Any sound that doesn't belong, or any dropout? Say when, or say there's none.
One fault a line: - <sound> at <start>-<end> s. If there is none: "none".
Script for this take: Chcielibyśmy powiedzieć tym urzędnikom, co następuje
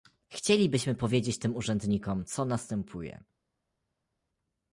none